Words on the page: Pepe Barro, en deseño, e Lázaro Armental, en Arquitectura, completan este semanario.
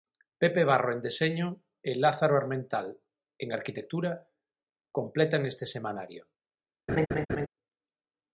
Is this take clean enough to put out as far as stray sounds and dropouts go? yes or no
no